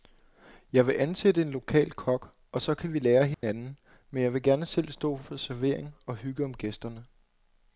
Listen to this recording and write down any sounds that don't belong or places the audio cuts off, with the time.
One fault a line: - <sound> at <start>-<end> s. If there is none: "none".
- dropout at 3.3-3.4 s